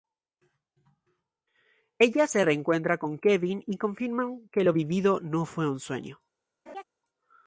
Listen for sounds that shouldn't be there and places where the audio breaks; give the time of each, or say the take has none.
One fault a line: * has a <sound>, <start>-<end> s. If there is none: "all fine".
* has a laugh, 6.7-6.8 s